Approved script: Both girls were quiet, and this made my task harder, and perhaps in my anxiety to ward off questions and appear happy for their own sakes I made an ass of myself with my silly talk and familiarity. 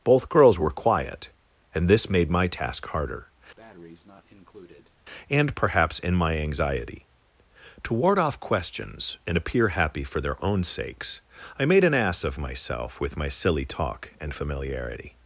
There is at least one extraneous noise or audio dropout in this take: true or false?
true